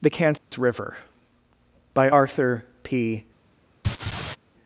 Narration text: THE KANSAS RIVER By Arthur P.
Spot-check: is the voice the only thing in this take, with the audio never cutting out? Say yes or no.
no